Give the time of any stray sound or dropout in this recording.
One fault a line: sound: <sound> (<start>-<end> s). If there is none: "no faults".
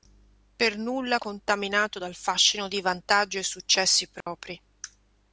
sound: dropout (4.2-4.3 s)